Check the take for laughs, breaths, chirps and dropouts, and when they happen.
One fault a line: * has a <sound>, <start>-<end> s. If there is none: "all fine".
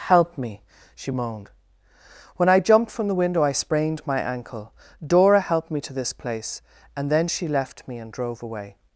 all fine